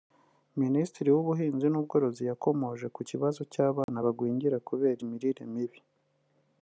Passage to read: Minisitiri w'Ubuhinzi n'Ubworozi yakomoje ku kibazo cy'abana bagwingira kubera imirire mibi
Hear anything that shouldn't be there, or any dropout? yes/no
yes